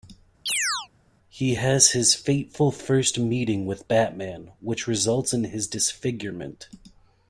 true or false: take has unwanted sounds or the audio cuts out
true